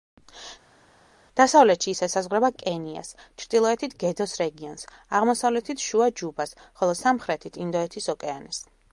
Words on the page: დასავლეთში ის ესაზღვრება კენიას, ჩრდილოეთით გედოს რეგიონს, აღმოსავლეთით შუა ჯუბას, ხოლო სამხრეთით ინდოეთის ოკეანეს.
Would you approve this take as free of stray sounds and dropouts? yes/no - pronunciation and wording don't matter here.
yes